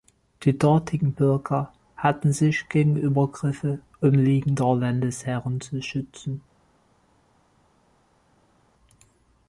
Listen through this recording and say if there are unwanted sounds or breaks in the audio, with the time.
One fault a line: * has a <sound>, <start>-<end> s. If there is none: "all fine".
all fine